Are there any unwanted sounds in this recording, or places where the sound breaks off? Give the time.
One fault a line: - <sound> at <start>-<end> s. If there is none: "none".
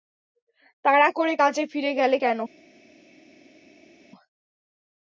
none